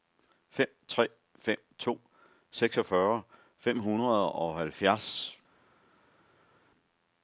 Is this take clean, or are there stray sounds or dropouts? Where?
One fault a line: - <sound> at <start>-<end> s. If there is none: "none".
none